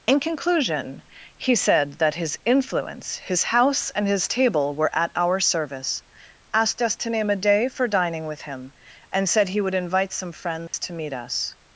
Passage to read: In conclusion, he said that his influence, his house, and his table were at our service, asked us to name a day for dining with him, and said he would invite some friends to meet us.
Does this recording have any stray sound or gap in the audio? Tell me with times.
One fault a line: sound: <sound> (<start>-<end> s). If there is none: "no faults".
sound: dropout (10.7-10.7 s)